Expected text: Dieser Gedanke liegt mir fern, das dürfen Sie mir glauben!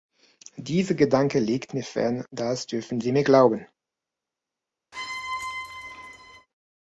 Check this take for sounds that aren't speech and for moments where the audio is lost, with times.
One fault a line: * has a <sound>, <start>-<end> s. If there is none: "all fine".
* has a squeak, 4.9-6.5 s